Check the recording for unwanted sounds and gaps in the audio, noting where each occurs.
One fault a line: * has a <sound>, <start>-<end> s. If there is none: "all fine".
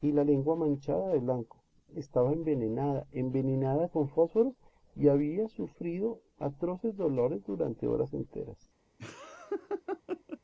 * has a laugh, 9.0-10.4 s